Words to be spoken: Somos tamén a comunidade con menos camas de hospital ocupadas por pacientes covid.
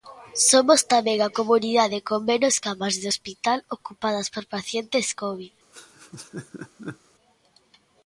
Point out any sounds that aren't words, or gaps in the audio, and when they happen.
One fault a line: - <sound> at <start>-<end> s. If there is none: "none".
- laugh at 5.7-7.0 s